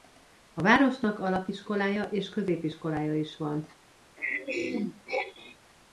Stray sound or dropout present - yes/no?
yes